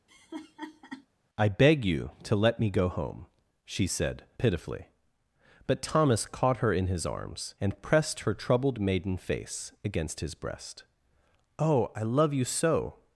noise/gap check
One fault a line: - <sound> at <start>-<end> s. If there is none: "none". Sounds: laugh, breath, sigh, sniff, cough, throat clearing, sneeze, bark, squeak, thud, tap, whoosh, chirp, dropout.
- laugh at 0.1-1.1 s